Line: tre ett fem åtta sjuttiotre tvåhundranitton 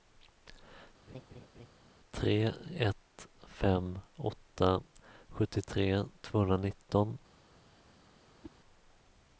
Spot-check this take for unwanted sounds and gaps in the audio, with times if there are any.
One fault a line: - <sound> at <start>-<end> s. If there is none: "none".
- laugh at 1.1-1.7 s
- whoosh at 8.4-8.6 s